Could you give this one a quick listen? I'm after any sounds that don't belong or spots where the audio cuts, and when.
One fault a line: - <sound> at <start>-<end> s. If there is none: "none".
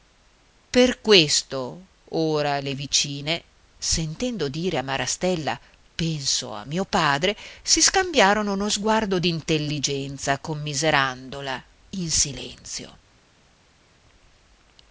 none